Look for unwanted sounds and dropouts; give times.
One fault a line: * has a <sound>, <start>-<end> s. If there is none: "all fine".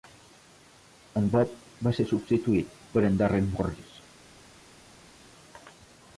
all fine